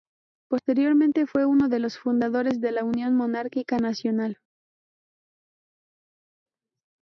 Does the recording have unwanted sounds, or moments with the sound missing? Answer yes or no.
no